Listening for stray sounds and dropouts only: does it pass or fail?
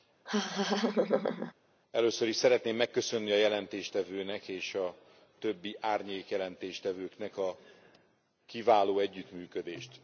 fail